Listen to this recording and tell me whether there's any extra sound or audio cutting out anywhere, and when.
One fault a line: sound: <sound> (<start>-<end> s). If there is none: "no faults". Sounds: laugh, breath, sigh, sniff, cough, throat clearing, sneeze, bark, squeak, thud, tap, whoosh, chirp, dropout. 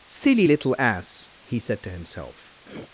sound: throat clearing (2.6-2.9 s)